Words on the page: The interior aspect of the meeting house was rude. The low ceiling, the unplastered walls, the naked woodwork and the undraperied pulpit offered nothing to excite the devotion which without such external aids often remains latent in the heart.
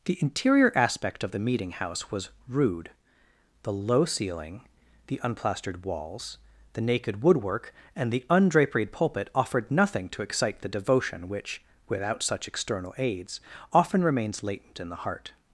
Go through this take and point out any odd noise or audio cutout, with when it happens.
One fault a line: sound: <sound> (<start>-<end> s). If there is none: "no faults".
no faults